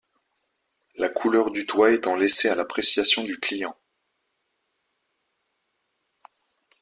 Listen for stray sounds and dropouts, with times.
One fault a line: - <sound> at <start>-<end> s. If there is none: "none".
none